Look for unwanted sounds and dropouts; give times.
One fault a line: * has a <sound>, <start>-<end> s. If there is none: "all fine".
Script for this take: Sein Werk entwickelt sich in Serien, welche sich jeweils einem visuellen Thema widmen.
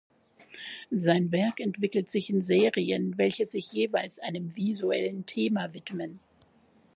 all fine